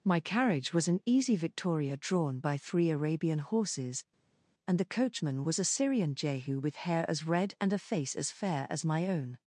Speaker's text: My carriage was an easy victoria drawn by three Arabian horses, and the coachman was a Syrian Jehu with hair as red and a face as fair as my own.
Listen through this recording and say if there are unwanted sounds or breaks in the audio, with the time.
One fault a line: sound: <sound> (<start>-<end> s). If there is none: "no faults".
no faults